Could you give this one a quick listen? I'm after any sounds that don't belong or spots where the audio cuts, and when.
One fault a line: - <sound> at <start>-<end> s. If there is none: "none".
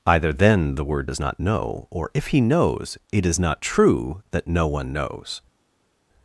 none